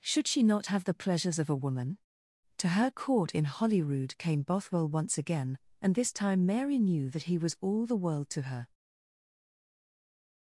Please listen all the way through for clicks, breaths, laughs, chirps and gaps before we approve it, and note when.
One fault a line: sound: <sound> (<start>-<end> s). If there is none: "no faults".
no faults